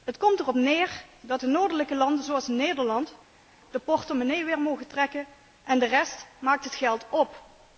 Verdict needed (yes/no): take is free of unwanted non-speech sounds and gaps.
yes